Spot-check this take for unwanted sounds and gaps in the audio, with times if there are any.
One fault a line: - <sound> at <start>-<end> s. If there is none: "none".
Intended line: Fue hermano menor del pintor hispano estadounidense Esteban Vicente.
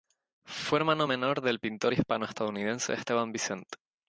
none